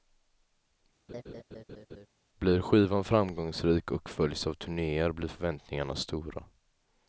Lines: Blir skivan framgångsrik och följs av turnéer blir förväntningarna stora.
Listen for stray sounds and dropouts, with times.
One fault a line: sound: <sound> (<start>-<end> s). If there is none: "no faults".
sound: laugh (1.1-2.1 s)